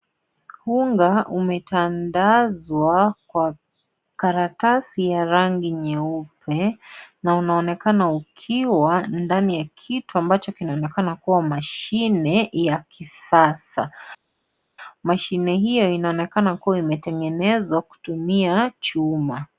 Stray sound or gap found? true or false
false